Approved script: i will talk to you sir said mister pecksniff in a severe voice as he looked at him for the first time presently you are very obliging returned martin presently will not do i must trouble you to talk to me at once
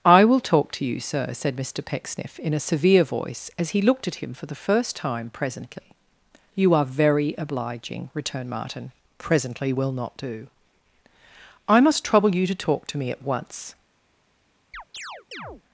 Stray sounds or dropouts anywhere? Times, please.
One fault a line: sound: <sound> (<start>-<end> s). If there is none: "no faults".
sound: chirp (14.7-15.6 s)